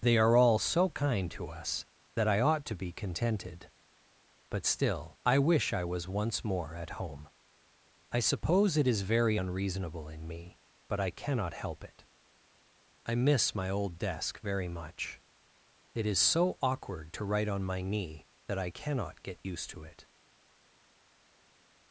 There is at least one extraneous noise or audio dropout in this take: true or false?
false